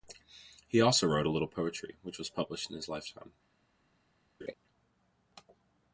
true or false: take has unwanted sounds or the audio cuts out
true